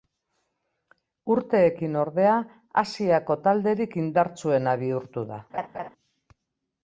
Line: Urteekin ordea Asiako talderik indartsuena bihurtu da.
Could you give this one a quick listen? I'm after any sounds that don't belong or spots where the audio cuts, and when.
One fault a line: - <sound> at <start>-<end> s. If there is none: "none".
- laugh at 5.5-5.9 s